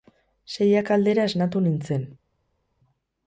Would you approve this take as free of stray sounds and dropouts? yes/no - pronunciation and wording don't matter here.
yes